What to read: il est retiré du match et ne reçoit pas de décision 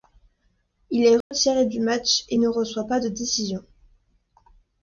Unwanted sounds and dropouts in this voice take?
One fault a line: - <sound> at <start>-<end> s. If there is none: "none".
- dropout at 1.2-1.3 s